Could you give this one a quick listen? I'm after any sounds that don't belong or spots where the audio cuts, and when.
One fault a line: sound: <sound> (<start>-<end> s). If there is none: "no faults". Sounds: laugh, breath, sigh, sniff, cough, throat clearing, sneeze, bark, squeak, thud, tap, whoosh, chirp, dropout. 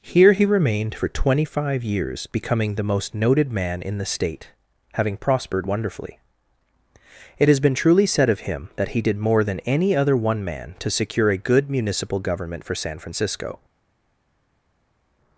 no faults